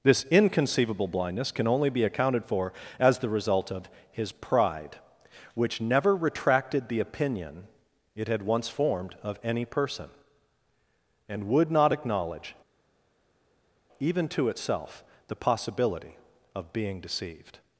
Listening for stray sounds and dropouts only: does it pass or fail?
pass